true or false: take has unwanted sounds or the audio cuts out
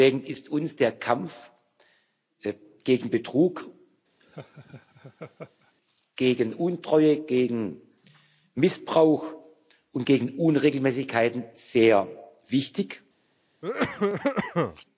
true